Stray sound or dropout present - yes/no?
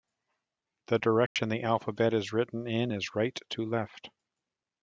yes